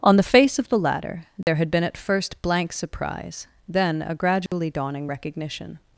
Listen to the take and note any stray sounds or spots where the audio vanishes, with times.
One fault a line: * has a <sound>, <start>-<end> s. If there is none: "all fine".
* has a dropout, 1.4-1.5 s
* has a dropout, 4.5-4.5 s